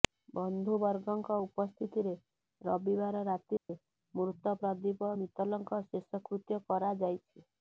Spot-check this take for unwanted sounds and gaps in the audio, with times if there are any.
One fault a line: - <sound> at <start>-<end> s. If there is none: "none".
- dropout at 3.6-3.7 s